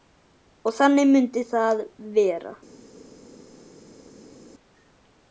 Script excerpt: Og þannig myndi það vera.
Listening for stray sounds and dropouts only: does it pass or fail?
pass